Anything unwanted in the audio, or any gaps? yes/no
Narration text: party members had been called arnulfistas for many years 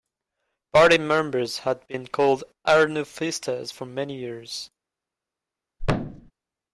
yes